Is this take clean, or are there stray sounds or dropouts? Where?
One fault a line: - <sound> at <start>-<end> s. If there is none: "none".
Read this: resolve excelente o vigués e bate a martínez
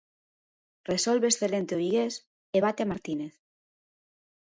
none